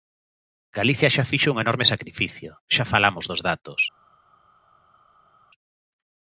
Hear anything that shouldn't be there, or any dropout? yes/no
no